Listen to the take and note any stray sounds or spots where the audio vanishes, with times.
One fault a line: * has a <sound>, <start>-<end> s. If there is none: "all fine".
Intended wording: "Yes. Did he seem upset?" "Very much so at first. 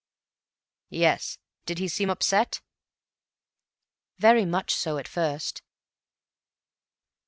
all fine